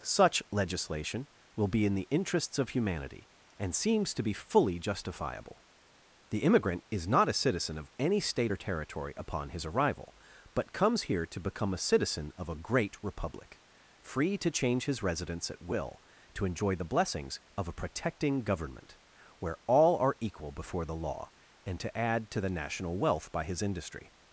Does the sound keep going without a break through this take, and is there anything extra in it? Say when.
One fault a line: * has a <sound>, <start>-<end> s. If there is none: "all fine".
all fine